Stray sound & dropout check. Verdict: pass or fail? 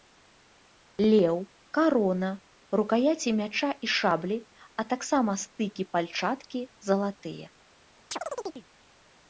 fail